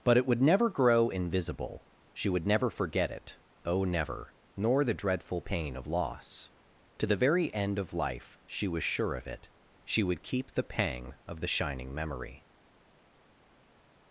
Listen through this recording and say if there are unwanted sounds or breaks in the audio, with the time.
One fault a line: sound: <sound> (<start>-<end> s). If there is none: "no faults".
no faults